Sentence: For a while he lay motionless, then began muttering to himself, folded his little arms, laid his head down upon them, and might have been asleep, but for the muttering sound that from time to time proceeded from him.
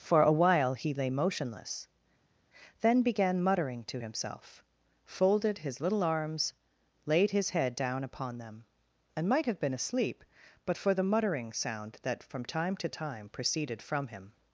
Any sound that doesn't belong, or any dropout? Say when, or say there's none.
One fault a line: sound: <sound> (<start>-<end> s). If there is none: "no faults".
no faults